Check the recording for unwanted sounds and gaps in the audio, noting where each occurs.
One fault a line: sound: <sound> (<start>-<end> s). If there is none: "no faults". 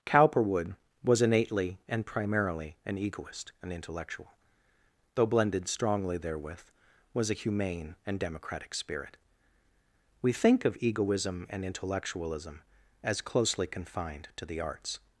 no faults